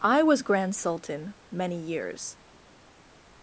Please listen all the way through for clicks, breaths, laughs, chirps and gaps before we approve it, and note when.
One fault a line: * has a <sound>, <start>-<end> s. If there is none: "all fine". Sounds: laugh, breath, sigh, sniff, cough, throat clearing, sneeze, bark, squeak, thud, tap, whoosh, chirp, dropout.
all fine